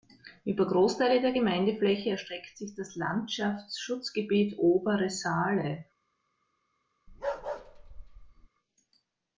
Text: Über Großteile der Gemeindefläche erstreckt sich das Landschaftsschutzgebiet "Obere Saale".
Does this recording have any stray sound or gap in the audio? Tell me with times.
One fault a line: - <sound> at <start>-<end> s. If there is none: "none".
- bark at 7.1-8.5 s